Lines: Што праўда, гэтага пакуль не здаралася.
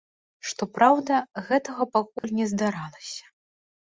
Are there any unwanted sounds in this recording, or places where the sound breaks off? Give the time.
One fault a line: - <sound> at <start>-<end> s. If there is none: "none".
- dropout at 2.2-2.2 s